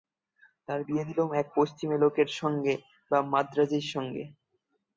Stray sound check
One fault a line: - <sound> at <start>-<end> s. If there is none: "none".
none